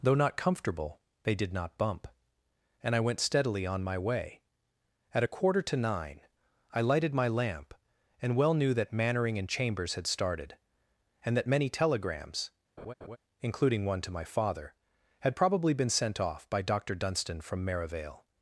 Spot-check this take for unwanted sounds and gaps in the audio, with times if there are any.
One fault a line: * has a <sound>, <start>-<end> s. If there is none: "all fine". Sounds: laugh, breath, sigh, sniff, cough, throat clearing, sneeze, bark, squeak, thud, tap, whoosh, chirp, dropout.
* has a laugh, 12.8-13.2 s